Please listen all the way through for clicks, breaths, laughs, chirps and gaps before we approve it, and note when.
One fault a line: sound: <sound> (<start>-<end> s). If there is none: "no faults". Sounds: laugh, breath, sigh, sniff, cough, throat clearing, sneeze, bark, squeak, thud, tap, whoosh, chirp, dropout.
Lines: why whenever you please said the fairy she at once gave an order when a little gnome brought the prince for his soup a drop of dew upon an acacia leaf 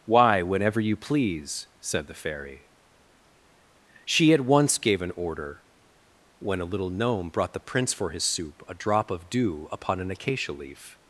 no faults